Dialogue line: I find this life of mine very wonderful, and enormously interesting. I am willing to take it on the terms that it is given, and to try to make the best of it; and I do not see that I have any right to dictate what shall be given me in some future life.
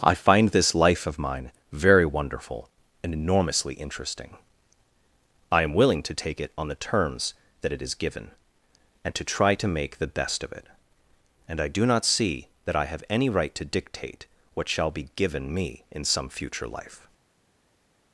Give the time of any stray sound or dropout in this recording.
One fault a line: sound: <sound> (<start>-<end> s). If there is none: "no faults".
no faults